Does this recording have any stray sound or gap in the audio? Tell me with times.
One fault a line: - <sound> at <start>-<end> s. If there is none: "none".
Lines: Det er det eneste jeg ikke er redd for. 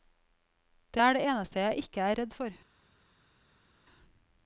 none